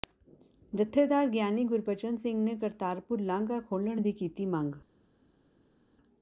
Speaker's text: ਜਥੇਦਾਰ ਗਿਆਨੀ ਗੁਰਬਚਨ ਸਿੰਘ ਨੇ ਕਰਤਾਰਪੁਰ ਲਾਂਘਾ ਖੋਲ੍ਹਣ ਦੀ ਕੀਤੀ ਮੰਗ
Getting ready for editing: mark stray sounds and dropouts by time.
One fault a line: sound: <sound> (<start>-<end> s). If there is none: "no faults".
no faults